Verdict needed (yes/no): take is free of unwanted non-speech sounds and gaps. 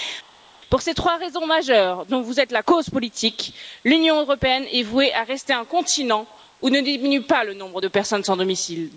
yes